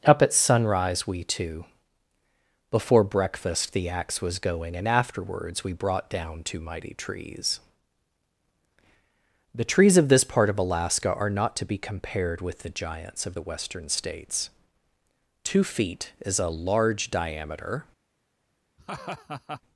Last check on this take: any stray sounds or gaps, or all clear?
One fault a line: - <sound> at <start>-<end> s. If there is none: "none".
- laugh at 18.8-19.6 s